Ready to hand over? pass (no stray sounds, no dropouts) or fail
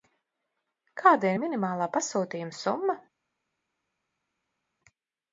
pass